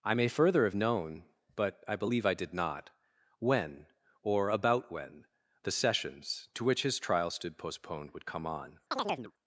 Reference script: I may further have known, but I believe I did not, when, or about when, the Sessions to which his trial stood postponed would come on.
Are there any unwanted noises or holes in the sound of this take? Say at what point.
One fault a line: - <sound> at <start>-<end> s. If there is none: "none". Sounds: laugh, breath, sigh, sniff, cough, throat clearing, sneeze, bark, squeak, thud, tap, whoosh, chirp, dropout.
- chirp at 8.9-9.3 s